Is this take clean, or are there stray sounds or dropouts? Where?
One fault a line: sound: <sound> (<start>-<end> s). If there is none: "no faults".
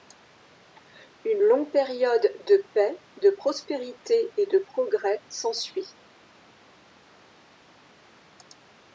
no faults